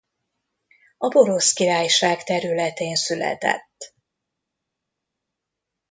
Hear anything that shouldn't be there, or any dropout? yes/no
no